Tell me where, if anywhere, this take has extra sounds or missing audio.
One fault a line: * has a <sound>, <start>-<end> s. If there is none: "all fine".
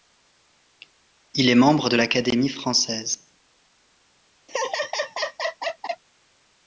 * has a laugh, 4.5-6.0 s